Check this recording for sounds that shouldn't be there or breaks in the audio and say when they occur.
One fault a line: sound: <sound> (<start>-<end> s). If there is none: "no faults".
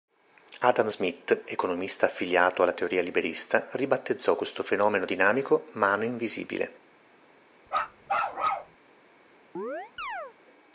sound: bark (7.7-8.8 s)
sound: chirp (9.5-10.3 s)